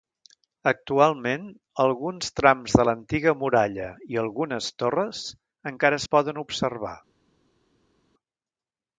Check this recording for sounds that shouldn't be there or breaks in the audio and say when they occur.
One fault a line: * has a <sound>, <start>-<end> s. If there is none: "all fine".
all fine